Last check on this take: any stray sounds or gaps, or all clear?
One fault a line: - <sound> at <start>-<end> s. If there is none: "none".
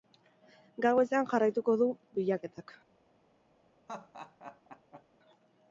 - laugh at 3.9-5.0 s